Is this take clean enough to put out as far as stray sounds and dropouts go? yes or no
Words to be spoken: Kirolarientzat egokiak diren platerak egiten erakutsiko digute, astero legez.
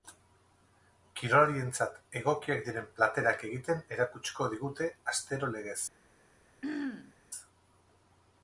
no